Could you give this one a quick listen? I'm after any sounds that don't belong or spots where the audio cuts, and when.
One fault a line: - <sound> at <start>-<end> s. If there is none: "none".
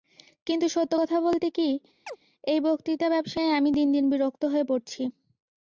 - chirp at 2.1-2.2 s